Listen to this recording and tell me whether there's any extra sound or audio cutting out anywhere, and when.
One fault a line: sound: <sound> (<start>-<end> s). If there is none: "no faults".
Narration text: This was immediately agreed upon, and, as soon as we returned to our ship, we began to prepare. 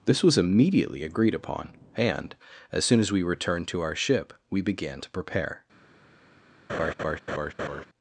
sound: laugh (6.7-7.8 s)